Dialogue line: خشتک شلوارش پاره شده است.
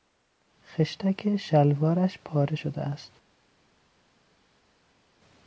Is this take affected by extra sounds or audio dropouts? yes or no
no